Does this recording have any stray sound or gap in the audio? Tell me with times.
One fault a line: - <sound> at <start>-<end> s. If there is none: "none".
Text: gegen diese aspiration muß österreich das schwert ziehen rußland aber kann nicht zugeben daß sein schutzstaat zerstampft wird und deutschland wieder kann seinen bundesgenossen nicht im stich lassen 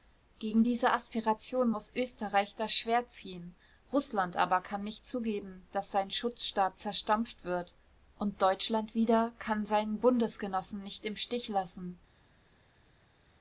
none